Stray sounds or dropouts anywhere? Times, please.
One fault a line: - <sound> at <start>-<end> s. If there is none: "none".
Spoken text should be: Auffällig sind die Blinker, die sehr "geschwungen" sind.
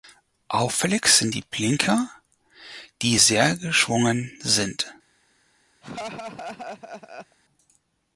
- laugh at 5.8-7.4 s